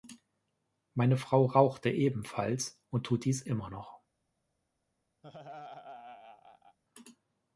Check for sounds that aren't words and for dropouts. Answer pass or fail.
fail